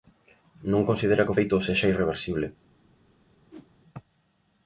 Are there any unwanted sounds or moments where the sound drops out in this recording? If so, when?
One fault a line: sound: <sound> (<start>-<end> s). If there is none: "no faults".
sound: whoosh (3.5-3.7 s)